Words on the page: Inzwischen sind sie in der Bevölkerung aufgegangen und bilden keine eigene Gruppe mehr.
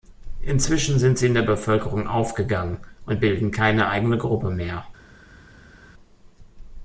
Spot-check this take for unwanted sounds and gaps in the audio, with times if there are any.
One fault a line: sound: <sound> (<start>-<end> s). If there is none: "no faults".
no faults